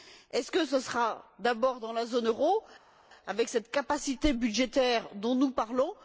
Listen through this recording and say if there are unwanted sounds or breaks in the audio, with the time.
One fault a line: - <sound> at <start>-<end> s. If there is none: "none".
none